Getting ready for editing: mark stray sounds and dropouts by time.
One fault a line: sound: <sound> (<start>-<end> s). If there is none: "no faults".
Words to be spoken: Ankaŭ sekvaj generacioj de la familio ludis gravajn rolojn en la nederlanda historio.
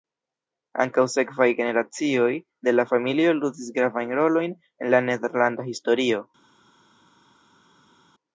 no faults